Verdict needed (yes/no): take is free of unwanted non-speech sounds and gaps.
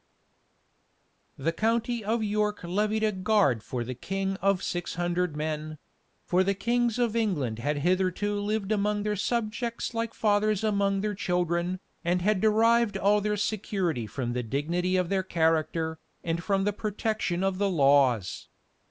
yes